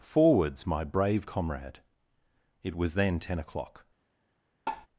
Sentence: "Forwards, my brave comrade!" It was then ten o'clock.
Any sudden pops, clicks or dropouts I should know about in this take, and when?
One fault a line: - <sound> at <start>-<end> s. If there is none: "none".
- tap at 4.7-4.9 s